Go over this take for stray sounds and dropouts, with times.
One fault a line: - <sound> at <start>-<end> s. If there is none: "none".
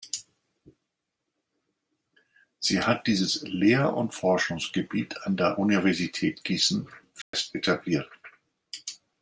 - dropout at 7.2-7.3 s